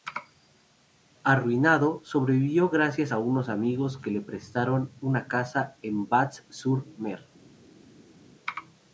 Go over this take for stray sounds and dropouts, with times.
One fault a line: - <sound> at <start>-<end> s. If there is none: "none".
none